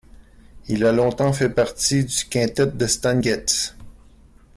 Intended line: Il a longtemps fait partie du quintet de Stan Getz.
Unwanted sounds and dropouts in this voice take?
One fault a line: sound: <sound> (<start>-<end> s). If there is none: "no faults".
no faults